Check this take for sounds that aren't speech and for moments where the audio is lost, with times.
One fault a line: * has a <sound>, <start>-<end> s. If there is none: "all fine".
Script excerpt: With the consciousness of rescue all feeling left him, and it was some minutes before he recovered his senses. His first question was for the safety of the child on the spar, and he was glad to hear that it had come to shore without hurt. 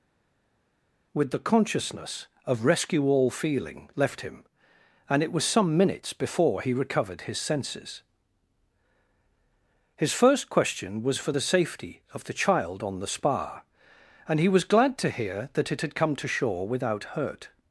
all fine